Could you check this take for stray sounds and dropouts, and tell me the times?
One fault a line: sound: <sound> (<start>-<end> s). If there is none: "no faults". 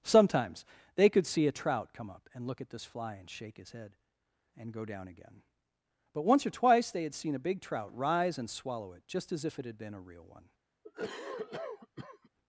sound: cough (10.8-12.3 s)